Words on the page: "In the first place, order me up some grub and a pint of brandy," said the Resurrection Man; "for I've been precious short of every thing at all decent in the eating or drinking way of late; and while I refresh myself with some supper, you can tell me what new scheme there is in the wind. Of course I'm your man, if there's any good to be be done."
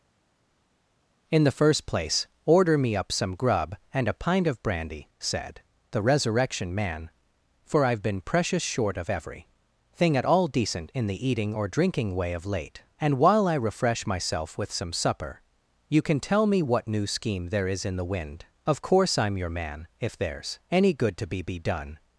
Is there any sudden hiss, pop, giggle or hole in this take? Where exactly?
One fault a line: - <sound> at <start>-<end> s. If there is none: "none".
none